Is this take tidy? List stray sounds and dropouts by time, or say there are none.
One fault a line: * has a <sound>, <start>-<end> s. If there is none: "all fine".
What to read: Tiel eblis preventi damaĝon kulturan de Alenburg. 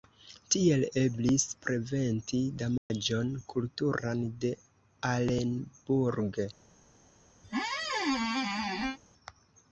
* has a dropout, 2.8-2.9 s
* has a squeak, 7.4-9.0 s